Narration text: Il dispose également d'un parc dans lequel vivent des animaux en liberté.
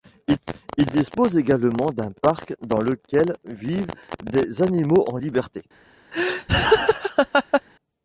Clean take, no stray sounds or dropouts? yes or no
no